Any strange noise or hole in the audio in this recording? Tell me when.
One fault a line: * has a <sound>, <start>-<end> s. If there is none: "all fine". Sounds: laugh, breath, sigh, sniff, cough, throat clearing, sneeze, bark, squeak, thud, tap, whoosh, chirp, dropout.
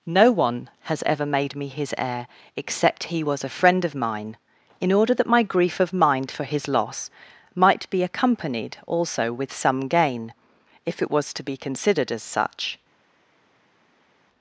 all fine